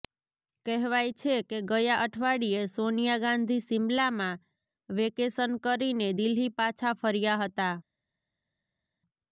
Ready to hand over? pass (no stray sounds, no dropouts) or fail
pass